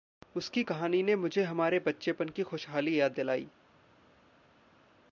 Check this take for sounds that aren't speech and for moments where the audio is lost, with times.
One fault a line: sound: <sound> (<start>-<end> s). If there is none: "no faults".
no faults